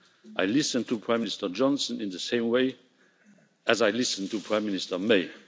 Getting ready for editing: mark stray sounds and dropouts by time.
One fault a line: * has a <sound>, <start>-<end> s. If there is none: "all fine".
all fine